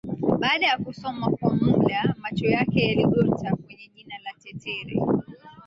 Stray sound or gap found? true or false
false